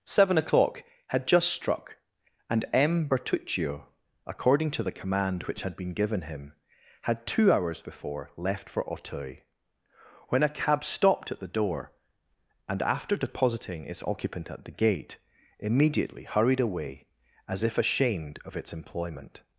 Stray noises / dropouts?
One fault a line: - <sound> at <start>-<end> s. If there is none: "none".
none